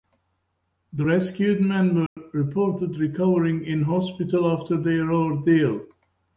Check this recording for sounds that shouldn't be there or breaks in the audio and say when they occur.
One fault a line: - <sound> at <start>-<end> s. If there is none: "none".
- dropout at 2.1-2.2 s